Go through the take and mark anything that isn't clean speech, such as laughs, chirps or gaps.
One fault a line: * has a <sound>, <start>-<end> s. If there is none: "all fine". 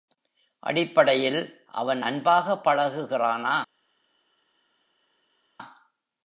all fine